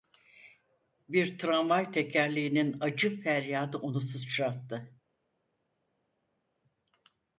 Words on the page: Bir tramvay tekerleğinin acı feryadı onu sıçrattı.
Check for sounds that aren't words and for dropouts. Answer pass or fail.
pass